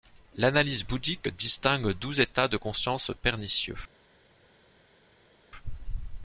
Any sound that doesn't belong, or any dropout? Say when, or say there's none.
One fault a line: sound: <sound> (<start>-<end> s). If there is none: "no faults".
no faults